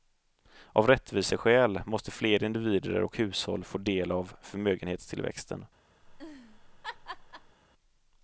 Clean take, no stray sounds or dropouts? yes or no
no